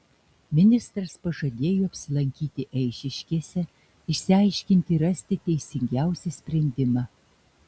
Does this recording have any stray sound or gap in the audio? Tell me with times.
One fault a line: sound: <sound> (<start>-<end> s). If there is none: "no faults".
no faults